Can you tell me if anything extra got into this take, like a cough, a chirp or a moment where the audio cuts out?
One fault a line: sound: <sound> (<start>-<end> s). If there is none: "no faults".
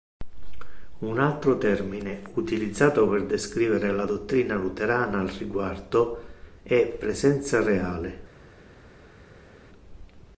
no faults